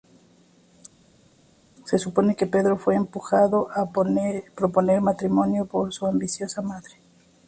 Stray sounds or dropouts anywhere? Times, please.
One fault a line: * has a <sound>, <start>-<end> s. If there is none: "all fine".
all fine